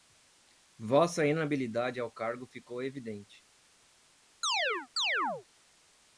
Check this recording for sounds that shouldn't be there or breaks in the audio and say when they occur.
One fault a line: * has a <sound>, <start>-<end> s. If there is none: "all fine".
* has a chirp, 4.4-5.5 s